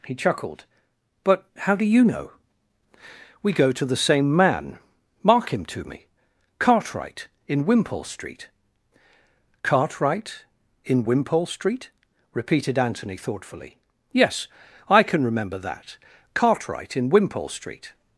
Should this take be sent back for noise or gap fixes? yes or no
no